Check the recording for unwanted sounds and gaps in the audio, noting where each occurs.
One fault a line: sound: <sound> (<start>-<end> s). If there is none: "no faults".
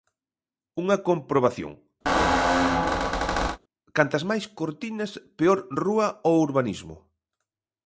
sound: squeak (2.1-3.6 s)